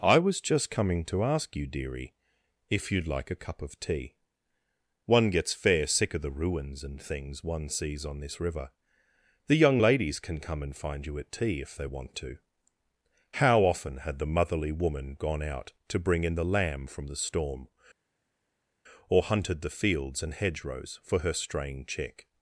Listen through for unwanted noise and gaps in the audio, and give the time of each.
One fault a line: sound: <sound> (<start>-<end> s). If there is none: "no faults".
no faults